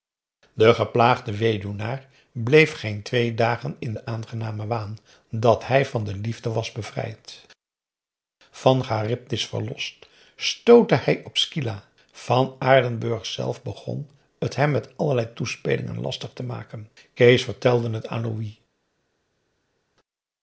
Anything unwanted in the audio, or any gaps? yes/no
no